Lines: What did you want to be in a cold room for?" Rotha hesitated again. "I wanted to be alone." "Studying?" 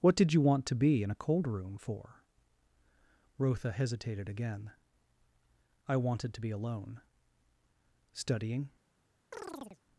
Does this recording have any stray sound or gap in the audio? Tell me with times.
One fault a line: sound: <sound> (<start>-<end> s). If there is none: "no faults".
sound: chirp (9.3-9.8 s)